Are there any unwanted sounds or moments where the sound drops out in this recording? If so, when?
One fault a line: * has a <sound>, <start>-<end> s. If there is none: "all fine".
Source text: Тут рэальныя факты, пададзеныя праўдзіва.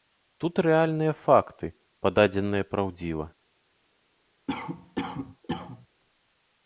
* has a cough, 4.5-5.9 s